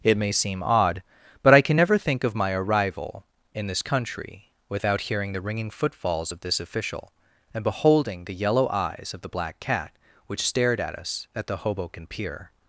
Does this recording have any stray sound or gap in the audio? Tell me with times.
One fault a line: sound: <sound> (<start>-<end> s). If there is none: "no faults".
no faults